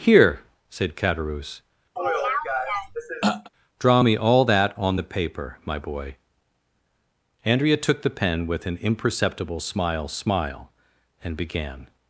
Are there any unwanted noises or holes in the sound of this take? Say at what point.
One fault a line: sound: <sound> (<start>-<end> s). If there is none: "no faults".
sound: throat clearing (2.0-3.5 s)